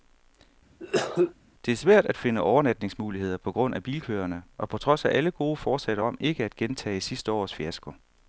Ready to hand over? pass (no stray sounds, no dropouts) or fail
fail